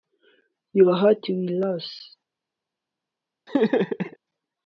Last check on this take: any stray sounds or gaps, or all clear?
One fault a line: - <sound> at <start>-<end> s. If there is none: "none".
- laugh at 3.5-4.2 s